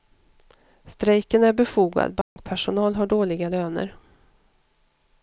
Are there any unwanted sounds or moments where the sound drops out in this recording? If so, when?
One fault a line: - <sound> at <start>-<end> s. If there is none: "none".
- dropout at 2.2-2.4 s